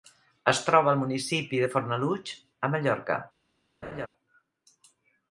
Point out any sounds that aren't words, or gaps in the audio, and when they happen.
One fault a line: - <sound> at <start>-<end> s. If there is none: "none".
- laugh at 3.8-4.1 s